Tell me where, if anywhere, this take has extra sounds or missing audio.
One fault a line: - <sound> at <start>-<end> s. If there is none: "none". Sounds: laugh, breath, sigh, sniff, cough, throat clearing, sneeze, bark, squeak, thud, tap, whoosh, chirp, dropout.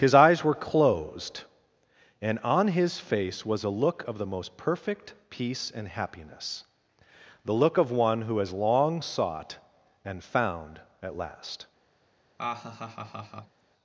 - laugh at 12.4-13.6 s